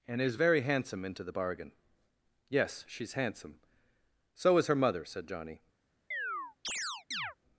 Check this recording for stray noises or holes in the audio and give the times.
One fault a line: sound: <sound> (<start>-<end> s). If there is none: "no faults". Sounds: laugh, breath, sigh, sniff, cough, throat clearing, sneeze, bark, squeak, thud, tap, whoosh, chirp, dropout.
sound: chirp (6.1-7.4 s)